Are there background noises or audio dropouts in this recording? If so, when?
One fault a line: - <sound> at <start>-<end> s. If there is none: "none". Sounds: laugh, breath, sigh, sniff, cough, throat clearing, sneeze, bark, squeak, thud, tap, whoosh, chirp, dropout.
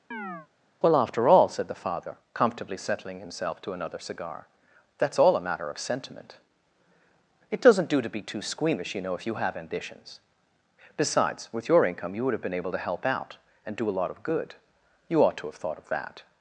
- chirp at 0.1-0.5 s